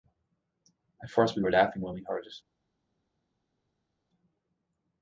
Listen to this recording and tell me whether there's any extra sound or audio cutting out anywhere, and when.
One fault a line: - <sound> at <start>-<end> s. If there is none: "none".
none